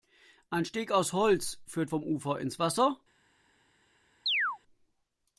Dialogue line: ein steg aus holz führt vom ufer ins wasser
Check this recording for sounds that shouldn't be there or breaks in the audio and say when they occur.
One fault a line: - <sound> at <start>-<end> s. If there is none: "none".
- chirp at 4.3-4.6 s